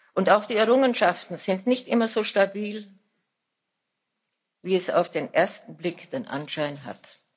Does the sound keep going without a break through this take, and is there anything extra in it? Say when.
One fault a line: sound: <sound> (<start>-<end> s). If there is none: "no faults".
no faults